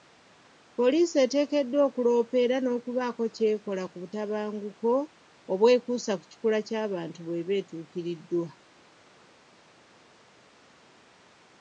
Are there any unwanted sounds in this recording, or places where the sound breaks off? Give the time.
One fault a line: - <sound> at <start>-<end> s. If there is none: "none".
none